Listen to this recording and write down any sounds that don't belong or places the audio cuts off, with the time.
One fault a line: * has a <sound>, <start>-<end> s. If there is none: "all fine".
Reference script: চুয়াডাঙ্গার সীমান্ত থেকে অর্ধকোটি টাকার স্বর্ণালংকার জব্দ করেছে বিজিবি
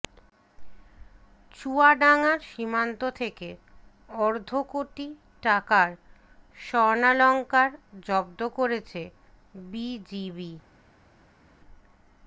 all fine